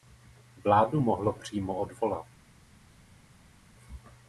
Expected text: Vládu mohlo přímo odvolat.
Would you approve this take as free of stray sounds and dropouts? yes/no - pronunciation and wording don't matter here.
yes